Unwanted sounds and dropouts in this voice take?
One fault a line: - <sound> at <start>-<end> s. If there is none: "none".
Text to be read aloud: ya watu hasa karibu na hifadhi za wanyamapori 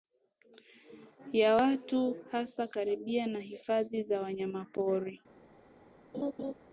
- laugh at 6.1-6.5 s